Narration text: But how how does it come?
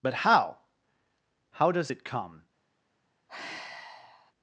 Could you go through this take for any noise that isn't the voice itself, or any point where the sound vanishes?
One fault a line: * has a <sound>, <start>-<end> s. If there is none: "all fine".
* has a sigh, 3.3-4.3 s